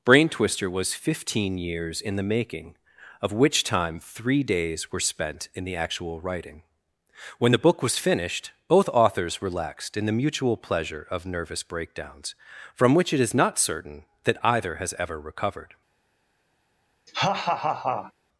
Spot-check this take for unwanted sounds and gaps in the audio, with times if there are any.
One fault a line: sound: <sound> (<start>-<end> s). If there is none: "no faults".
sound: laugh (17.1-18.1 s)